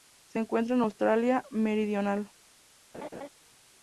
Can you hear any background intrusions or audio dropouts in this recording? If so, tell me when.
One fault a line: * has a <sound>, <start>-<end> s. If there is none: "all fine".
* has a laugh, 2.9-3.3 s